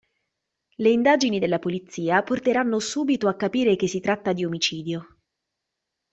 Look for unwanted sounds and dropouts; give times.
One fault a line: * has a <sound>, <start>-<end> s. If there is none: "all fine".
all fine